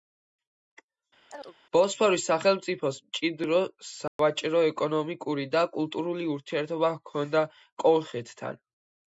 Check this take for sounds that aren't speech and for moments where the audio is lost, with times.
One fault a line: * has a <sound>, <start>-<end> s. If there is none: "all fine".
* has a chirp, 1.3-1.6 s
* has a dropout, 4.1-4.2 s